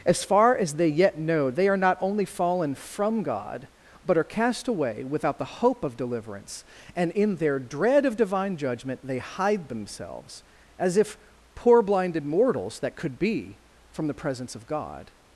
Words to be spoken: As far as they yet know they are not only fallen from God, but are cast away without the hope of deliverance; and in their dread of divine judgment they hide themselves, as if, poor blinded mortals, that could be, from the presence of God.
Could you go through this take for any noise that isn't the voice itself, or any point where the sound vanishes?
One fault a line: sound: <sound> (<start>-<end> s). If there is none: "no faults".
no faults